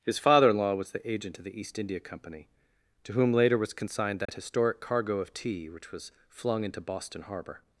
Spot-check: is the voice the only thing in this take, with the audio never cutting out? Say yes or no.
no